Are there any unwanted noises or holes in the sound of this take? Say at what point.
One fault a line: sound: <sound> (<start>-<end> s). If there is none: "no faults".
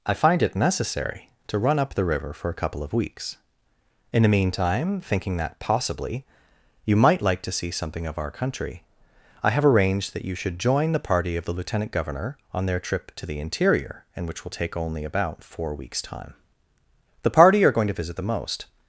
no faults